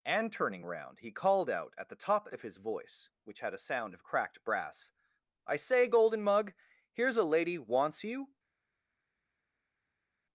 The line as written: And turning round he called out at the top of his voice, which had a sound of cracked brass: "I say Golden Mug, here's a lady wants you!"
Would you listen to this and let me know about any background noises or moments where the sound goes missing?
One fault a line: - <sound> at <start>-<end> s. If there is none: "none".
none